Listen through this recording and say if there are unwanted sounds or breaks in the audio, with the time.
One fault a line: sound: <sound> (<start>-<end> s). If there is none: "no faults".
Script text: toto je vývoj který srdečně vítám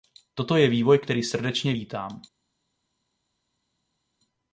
no faults